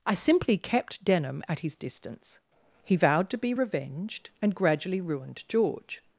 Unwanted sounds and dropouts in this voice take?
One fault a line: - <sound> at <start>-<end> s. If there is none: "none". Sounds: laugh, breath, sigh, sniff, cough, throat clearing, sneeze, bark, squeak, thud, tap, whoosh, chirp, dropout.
none